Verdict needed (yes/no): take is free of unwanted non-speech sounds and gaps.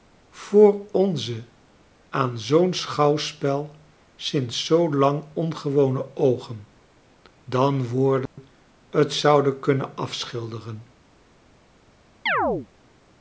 no